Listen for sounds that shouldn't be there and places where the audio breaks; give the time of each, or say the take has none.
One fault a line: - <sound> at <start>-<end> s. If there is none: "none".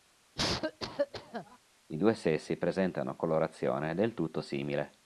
- cough at 0.4-1.6 s